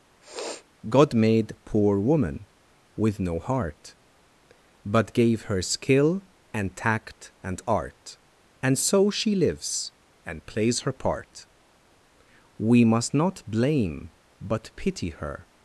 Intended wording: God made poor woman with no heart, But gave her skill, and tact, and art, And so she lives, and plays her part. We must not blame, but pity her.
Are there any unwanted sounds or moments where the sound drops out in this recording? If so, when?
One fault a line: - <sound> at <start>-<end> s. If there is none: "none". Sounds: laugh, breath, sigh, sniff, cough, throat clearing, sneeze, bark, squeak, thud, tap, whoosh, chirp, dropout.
- sniff at 0.2-0.6 s